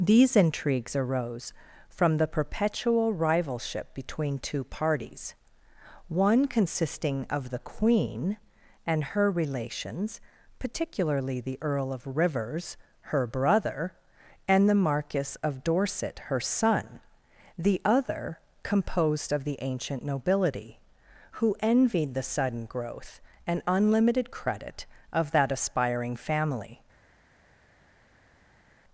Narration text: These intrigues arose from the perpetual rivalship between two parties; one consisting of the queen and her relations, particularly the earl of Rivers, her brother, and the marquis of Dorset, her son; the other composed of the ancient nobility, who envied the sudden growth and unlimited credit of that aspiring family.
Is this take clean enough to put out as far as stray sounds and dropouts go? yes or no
yes